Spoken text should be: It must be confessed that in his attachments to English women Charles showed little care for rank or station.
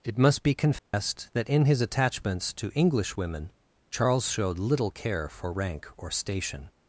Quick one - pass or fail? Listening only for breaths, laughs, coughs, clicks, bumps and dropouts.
fail